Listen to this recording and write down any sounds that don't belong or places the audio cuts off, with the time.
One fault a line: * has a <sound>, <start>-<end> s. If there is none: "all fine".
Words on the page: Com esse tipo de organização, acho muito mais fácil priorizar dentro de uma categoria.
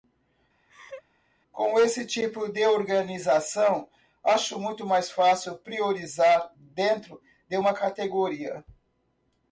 * has a laugh, 0.7-1.0 s